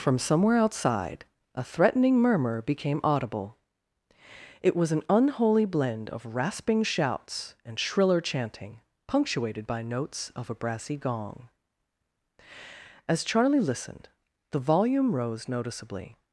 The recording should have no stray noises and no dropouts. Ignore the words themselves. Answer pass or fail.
pass